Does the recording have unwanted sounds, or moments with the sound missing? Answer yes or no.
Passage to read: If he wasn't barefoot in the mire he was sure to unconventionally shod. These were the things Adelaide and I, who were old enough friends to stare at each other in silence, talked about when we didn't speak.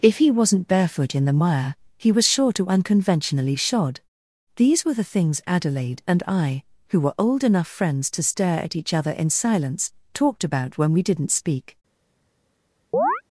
yes